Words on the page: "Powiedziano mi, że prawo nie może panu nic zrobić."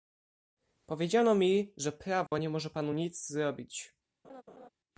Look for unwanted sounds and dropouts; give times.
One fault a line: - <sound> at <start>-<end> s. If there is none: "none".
- dropout at 2.3-2.3 s
- laugh at 4.2-4.7 s